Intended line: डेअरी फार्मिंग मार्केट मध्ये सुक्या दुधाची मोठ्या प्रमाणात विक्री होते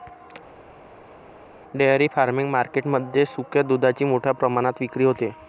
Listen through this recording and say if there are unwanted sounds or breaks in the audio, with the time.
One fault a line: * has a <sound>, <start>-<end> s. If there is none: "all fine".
all fine